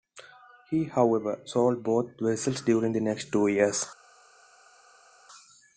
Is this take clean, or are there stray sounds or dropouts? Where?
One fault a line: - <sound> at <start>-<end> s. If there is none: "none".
none